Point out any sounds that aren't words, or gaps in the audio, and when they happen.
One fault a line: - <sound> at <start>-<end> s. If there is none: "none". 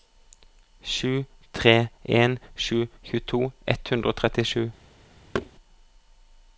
- thud at 5.3-5.5 s